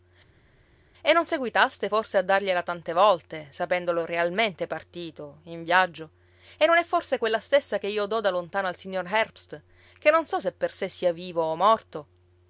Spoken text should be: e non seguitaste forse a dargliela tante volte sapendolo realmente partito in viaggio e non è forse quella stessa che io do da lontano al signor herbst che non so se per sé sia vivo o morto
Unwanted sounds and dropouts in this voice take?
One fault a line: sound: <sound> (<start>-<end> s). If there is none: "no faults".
no faults